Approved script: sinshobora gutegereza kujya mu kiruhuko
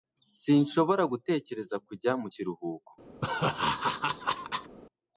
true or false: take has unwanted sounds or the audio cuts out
true